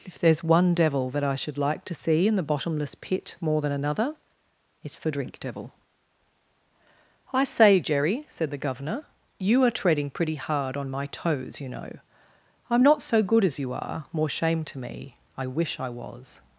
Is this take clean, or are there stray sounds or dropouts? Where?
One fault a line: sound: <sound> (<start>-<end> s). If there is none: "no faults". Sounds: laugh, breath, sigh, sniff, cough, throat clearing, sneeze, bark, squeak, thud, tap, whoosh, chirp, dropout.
no faults